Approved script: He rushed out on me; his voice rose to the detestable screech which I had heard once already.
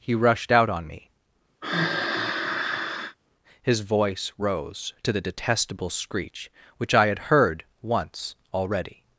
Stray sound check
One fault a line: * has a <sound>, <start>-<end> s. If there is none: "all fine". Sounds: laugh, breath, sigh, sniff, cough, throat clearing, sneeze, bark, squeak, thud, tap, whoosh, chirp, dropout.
* has a sigh, 1.6-3.2 s